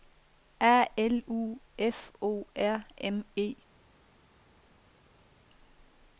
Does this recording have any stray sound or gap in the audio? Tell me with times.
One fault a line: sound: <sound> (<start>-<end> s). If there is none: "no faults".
no faults